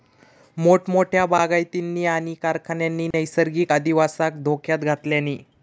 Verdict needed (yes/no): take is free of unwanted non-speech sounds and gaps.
no